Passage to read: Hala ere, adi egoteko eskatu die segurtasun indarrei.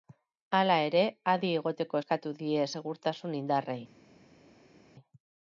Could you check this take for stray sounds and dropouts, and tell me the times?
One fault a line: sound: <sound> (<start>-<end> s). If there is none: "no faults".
no faults